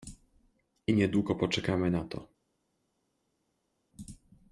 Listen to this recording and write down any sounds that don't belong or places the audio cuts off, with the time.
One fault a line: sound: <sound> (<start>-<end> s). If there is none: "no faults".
no faults